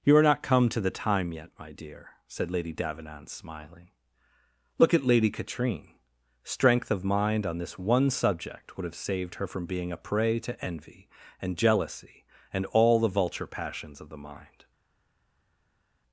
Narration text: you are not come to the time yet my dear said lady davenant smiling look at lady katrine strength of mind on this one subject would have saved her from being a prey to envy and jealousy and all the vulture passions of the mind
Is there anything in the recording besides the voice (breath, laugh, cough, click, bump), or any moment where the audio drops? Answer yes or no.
no